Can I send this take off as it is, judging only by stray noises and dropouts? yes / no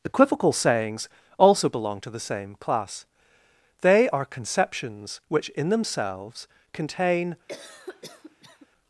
no